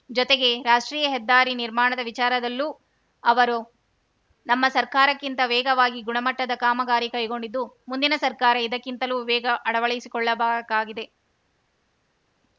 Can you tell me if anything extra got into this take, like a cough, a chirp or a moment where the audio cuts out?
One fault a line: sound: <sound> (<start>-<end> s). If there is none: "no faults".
no faults